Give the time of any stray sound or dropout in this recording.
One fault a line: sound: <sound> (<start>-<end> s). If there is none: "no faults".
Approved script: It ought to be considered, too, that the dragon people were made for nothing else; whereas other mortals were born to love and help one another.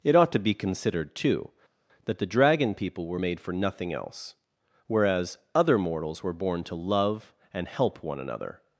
no faults